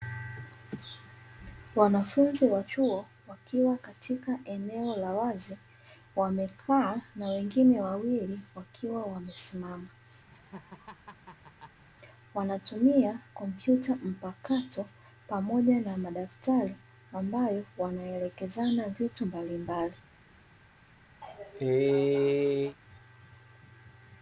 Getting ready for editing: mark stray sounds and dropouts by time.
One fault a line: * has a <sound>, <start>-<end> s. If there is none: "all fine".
* has a laugh, 10.3-11.8 s
* has a cough, 21.2-22.8 s